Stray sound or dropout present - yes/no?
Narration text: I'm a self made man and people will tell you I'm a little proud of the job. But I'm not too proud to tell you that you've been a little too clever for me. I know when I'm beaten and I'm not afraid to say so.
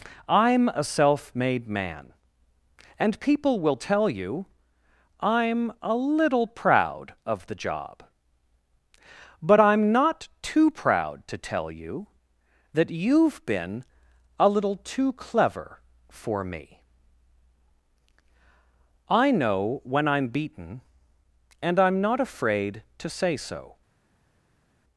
no